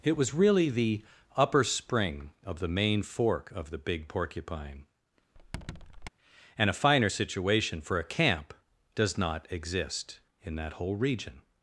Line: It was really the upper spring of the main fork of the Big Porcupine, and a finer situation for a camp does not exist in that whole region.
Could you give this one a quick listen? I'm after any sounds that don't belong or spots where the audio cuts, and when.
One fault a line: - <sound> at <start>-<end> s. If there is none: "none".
- squeak at 5.3-6.1 s